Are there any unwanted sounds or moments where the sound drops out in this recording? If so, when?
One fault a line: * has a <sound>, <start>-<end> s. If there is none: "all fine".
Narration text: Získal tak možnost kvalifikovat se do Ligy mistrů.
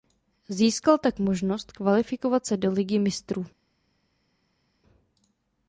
all fine